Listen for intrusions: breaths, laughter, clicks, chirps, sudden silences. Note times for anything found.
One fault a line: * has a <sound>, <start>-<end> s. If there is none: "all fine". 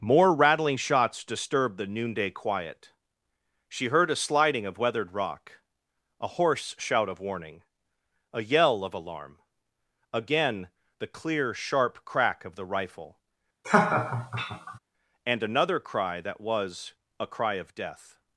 * has a laugh, 13.6-14.8 s